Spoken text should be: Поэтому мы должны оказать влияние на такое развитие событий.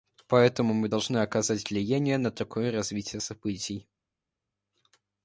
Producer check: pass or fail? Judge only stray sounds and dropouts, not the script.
pass